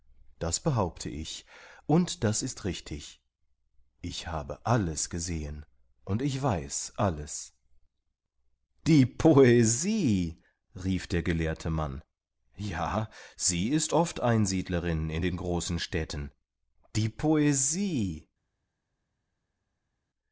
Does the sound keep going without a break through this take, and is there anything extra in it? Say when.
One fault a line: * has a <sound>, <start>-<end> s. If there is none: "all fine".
all fine